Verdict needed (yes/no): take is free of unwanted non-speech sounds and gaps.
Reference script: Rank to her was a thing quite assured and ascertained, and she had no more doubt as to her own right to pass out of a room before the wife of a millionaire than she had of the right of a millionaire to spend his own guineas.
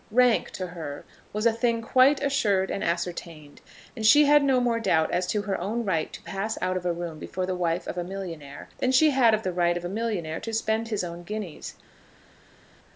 yes